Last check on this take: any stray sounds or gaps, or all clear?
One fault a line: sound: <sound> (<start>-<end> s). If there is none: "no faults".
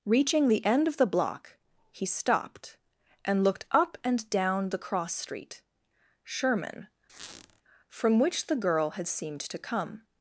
sound: squeak (7.1-7.6 s)